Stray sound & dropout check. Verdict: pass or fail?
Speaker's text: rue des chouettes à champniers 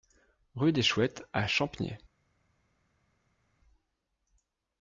pass